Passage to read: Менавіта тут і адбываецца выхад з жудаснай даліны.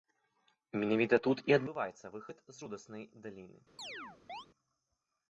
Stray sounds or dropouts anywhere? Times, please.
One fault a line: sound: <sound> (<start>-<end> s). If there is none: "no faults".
sound: chirp (3.8-4.5 s)